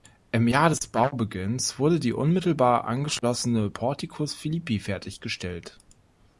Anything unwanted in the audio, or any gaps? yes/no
no